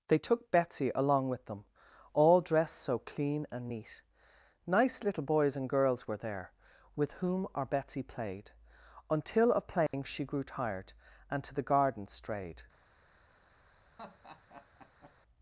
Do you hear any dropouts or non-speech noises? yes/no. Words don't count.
yes